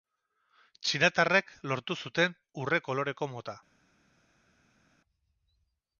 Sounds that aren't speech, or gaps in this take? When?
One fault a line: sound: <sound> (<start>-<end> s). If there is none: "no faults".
no faults